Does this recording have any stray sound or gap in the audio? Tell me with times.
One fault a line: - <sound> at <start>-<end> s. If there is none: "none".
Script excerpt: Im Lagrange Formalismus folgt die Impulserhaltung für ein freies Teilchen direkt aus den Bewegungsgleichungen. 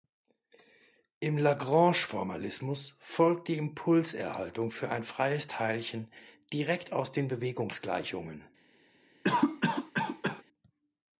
- cough at 9.2-10.4 s